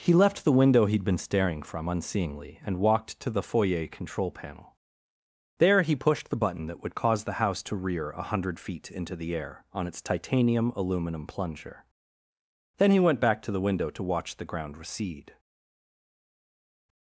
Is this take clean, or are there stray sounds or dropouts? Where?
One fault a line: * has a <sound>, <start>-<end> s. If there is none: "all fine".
all fine